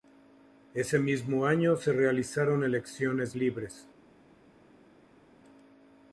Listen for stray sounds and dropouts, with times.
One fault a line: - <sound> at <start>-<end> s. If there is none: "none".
none